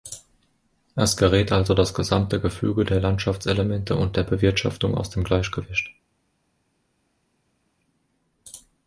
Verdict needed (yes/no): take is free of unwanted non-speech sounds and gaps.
yes